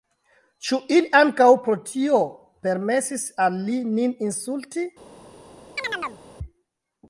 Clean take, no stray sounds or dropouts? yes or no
no